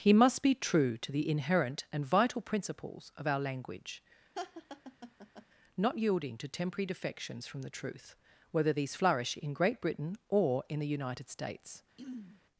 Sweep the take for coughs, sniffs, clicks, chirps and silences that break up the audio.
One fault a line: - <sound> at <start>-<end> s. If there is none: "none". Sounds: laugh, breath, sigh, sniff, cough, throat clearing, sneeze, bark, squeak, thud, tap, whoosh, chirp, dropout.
- laugh at 4.4-5.5 s
- throat clearing at 12.0-12.4 s